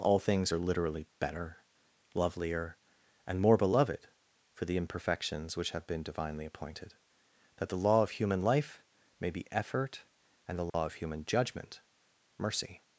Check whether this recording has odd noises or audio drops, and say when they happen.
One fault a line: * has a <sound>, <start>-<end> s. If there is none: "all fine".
* has a dropout, 10.7-10.7 s